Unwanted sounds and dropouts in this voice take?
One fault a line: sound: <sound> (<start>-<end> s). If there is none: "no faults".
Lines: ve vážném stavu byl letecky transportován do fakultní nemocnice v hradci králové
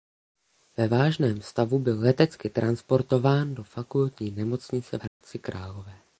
sound: dropout (5.1-5.2 s)